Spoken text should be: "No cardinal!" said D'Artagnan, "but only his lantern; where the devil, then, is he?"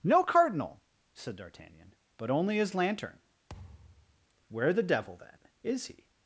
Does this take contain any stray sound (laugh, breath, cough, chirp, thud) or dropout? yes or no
yes